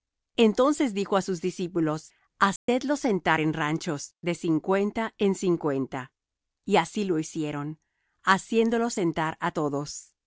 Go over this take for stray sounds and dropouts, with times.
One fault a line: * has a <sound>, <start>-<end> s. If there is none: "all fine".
* has a dropout, 2.6-2.7 s